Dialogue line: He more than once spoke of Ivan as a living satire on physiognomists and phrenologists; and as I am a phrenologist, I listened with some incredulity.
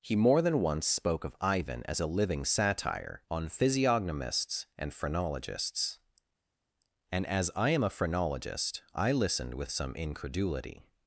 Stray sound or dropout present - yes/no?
no